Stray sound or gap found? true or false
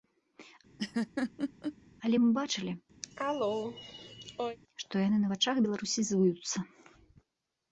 true